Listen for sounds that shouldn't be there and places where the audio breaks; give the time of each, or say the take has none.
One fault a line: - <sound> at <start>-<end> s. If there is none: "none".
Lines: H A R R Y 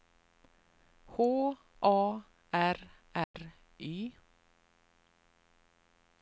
- dropout at 3.2-3.3 s